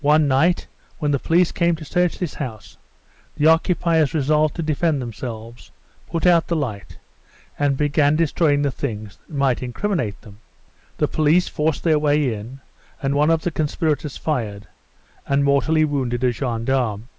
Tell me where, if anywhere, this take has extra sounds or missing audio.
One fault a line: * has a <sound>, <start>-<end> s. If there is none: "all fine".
all fine